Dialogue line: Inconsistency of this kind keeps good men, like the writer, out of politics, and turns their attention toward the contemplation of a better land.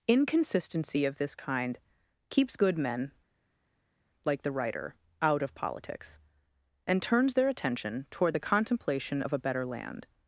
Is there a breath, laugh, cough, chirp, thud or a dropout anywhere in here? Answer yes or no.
no